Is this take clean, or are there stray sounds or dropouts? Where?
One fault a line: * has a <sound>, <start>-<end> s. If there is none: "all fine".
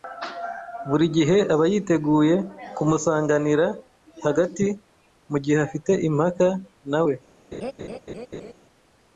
* has a laugh, 7.5-8.5 s